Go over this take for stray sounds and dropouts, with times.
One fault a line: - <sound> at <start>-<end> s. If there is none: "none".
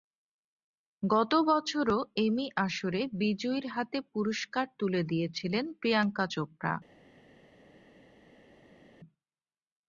none